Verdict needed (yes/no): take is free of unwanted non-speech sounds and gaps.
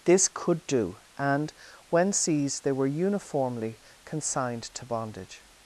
yes